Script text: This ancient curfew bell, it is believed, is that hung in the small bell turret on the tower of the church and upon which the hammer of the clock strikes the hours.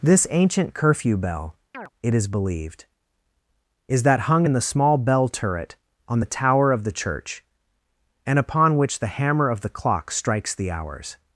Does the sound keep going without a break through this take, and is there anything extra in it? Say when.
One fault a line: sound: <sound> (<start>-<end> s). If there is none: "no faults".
sound: chirp (1.7-1.9 s)